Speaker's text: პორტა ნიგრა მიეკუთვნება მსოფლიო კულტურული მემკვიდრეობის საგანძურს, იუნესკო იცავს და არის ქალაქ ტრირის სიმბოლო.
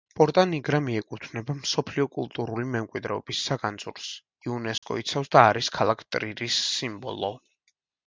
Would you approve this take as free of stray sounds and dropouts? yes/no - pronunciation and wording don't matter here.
no